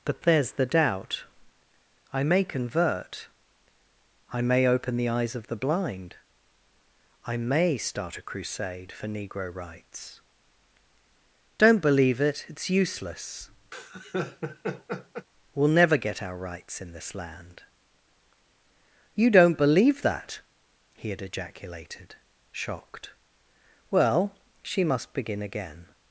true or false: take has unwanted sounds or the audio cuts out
true